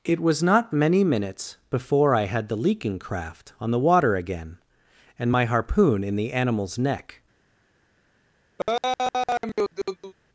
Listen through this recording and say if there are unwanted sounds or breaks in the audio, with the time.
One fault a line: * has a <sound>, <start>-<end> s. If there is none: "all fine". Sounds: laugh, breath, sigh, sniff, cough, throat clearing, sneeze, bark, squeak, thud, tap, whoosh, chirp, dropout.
* has a laugh, 8.6-10.1 s